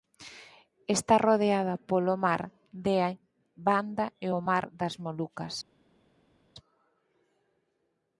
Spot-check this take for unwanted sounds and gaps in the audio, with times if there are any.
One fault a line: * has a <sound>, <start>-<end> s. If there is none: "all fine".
all fine